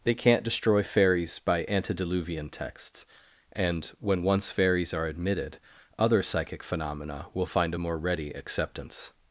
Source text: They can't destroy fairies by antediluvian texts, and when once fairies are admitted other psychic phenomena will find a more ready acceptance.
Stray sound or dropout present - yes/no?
no